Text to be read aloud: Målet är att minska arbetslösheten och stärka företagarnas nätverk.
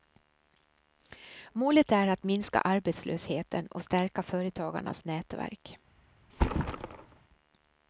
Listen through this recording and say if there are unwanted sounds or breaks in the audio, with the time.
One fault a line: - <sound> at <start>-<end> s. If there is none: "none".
- thud at 6.3-7.2 s